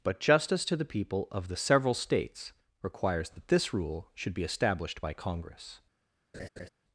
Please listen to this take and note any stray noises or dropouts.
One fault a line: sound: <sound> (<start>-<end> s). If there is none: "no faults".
sound: laugh (6.3-6.7 s)